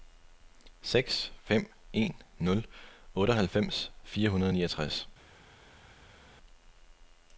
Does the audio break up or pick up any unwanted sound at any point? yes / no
no